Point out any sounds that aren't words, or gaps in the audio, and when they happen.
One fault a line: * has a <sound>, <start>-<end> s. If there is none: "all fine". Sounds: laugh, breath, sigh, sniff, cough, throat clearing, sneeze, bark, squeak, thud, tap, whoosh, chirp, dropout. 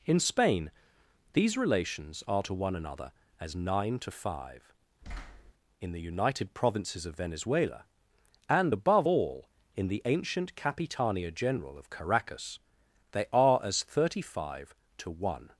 * has a thud, 5.0-5.5 s